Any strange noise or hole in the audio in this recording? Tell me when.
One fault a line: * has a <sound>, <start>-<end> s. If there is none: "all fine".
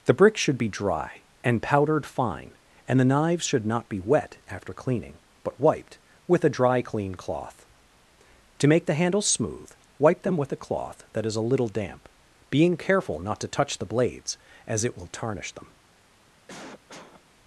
* has a cough, 16.5-17.2 s